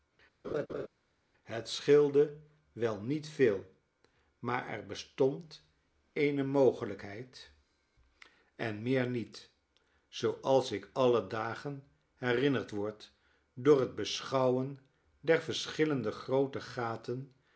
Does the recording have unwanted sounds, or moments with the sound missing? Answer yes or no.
yes